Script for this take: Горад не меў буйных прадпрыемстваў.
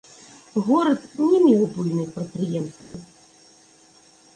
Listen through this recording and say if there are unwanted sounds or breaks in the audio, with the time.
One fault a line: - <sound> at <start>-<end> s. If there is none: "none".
- dropout at 2.8-2.9 s